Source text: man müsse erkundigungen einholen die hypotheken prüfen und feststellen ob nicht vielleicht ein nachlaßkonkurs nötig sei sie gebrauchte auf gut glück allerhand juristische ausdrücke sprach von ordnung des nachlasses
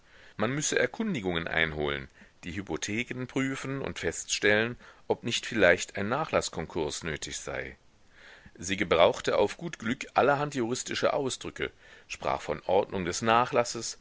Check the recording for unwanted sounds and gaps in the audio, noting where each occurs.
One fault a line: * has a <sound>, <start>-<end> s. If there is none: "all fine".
all fine